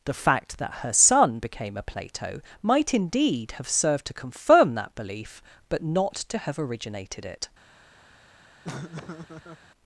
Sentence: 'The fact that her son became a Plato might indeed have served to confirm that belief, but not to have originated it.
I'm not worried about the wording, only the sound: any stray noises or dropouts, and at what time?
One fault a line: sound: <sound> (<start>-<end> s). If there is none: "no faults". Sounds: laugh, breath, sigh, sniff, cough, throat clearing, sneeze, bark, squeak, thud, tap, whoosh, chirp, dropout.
sound: laugh (8.6-9.7 s)